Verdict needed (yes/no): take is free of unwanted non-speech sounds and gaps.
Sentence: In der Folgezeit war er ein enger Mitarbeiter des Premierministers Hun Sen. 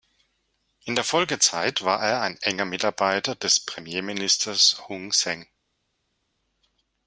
yes